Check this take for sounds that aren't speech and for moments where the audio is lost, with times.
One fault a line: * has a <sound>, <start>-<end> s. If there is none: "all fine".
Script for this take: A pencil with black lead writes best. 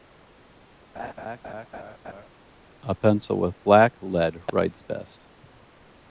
* has a laugh, 0.9-2.3 s